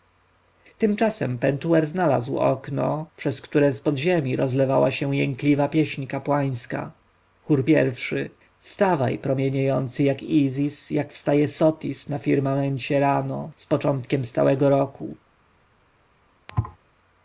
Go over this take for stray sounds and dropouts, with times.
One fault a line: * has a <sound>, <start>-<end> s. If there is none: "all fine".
* has a thud, 16.5-16.8 s